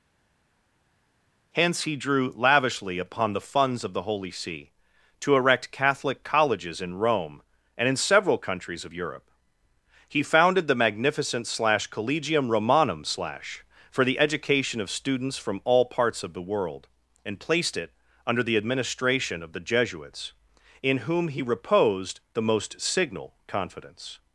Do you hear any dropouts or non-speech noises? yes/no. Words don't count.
no